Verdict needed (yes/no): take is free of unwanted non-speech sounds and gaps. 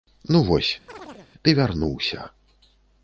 no